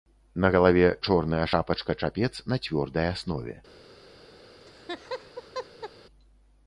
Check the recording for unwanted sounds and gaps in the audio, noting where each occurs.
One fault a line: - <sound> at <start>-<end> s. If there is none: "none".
- laugh at 4.6-5.9 s